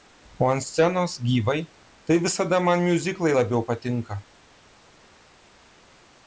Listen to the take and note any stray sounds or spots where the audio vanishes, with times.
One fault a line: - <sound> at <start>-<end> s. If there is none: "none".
none